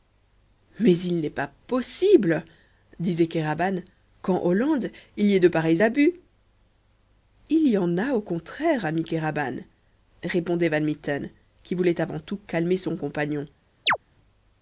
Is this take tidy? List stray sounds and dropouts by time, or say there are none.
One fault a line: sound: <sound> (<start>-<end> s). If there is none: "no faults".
sound: chirp (13.9-14.0 s)